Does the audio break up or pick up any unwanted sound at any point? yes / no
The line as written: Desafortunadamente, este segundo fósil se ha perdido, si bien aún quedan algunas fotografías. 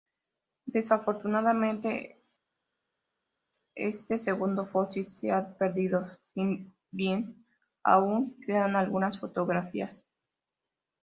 no